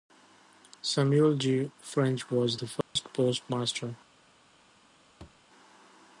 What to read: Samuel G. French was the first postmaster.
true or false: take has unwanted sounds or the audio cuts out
true